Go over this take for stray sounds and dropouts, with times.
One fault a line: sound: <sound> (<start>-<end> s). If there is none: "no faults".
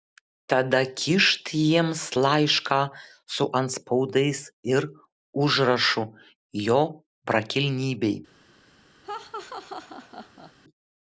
sound: laugh (9.0-10.5 s)